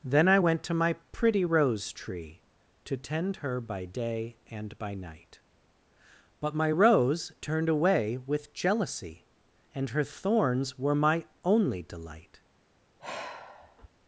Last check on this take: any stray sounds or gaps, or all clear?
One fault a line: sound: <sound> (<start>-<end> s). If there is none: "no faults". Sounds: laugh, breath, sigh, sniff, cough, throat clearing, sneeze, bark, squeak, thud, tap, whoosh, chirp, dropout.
sound: sigh (13.0-13.9 s)